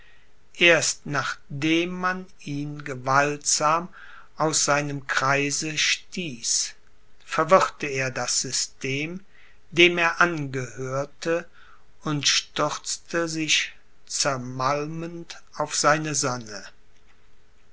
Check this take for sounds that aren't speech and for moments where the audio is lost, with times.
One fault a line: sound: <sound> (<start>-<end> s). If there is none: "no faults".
no faults